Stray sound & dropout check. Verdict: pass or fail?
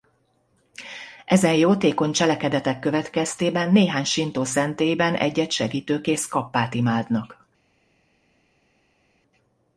pass